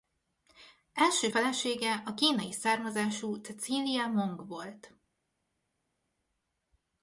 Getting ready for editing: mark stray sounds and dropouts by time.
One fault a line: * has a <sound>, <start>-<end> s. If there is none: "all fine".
all fine